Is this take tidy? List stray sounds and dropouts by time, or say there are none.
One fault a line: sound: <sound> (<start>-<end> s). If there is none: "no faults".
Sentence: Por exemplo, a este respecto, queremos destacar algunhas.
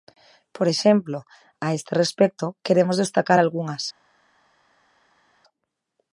no faults